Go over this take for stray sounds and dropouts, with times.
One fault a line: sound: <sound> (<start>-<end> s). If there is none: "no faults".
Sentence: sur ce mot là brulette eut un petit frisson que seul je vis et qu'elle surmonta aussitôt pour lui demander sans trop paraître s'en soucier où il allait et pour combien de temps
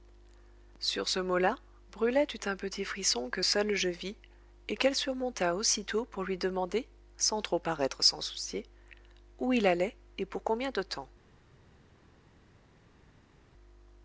no faults